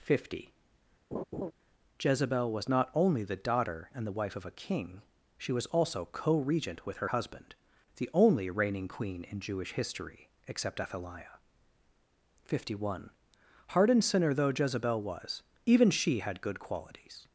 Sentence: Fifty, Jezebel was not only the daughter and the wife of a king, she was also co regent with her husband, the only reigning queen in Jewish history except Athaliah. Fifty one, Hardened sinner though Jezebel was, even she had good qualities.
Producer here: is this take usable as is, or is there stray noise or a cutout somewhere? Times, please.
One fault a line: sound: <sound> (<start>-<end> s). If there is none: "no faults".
sound: laugh (1.1-1.5 s)